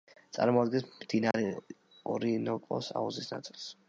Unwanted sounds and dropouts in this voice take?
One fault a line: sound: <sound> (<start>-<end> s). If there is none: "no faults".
sound: dropout (1.3-1.3 s)